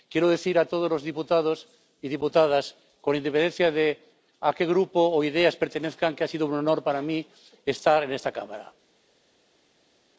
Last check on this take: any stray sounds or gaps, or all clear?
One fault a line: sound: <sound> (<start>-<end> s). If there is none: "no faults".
no faults